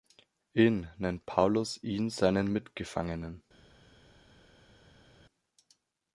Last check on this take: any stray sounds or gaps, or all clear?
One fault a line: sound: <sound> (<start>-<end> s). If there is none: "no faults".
no faults